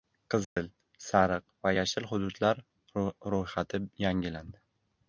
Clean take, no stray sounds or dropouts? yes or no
no